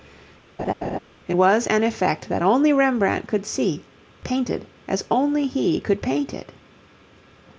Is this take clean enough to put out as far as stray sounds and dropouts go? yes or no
no